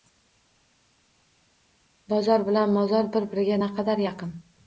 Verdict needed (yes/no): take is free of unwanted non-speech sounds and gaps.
yes